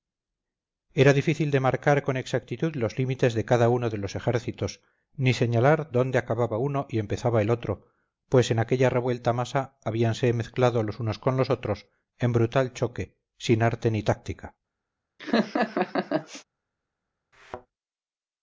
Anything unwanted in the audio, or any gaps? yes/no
yes